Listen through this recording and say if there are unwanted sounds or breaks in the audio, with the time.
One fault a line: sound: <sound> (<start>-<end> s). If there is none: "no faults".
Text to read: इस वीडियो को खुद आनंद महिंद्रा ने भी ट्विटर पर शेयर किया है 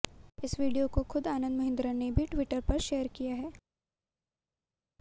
no faults